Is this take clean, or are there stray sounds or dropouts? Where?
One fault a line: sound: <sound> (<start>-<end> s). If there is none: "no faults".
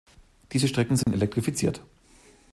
sound: dropout (1.0-1.1 s)